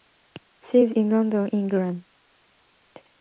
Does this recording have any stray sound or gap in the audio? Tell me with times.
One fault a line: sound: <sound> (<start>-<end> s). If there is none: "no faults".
no faults